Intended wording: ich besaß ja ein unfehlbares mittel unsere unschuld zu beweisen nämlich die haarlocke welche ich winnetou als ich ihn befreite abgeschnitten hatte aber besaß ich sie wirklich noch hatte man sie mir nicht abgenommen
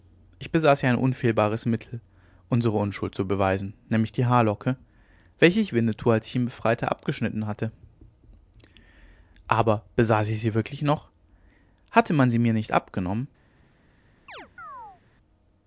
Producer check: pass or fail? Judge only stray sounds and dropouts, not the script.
fail